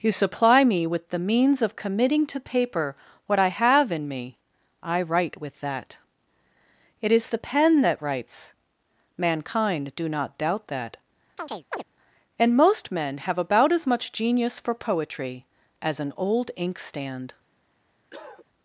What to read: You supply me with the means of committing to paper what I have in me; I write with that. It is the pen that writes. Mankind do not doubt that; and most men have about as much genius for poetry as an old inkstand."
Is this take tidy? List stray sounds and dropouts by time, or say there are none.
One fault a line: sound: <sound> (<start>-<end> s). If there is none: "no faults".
sound: chirp (11.4-11.8 s)
sound: cough (18.1-18.5 s)